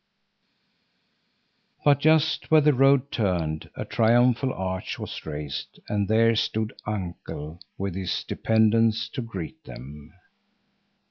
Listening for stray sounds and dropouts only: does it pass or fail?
pass